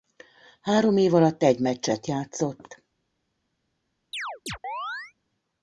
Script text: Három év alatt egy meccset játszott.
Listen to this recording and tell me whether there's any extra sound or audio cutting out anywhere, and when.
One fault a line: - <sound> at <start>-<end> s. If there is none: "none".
- chirp at 4.1-5.1 s